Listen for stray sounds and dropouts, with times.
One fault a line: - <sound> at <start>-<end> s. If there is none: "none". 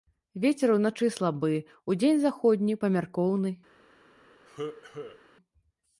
- cough at 4.5-5.2 s